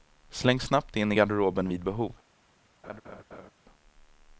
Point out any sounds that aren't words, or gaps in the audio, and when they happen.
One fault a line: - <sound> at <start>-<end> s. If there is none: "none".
- laugh at 2.8-3.5 s